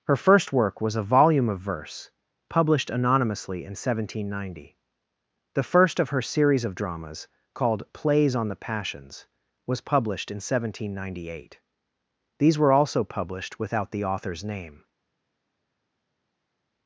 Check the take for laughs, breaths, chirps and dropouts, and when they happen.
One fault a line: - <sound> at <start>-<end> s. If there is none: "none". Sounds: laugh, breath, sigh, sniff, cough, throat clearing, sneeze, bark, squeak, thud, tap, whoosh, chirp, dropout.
none